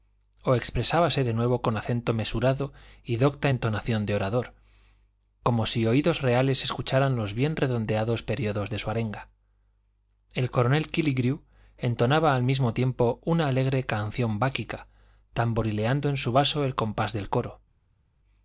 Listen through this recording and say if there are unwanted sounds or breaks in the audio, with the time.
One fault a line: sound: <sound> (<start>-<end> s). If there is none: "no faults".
no faults